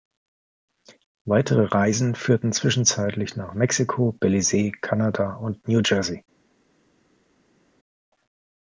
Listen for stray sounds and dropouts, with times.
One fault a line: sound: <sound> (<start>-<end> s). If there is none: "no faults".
no faults